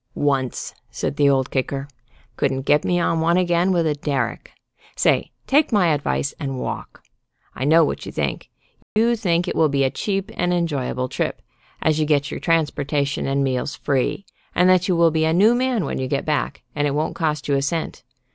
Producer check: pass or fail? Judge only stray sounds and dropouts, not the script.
fail